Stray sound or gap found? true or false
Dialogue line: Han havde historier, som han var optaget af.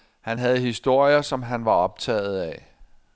false